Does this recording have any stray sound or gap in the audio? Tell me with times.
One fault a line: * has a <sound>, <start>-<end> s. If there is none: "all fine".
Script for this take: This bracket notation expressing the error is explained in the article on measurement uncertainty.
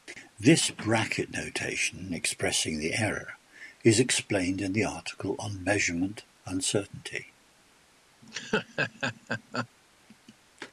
* has a laugh, 8.2-9.7 s